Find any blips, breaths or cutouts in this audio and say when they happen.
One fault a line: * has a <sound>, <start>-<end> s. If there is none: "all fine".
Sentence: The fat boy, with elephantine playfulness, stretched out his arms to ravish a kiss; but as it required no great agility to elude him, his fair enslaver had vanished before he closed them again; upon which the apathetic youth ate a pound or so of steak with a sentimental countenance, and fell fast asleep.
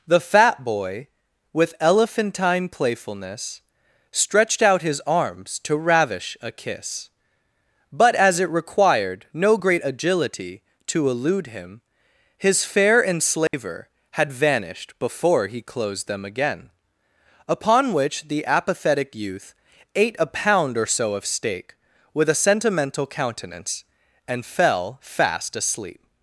* has a dropout, 13.5-13.5 s